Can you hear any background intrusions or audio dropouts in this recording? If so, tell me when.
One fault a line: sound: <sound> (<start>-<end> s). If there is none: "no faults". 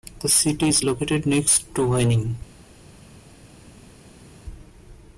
no faults